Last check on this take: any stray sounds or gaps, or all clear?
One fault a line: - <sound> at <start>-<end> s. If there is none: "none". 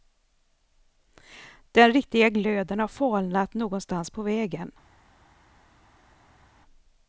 none